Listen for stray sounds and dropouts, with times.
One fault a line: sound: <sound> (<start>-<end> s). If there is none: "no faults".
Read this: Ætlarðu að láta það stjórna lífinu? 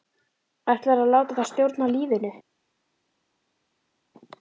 no faults